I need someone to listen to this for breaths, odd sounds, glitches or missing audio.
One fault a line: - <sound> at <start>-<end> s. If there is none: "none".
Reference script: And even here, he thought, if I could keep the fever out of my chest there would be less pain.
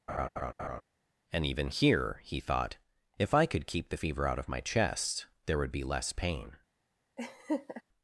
- laugh at 0.1-0.8 s
- laugh at 7.2-7.8 s